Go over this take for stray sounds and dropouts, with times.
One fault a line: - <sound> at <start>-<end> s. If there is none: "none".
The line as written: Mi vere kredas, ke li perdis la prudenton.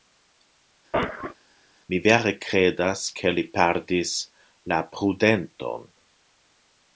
- cough at 0.9-1.4 s